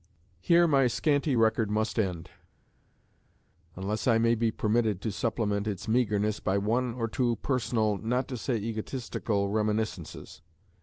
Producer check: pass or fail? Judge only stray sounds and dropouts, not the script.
pass